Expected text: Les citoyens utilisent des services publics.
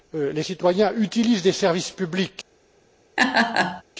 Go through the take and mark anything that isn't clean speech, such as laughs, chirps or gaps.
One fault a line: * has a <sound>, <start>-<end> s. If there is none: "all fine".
* has a laugh, 3.2-3.8 s